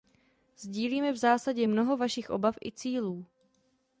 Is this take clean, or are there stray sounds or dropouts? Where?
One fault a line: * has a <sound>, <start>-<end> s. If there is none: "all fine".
all fine